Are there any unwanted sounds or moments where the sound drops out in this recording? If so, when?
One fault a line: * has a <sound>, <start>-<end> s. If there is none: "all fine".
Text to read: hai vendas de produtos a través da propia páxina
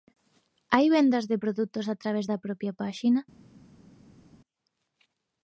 all fine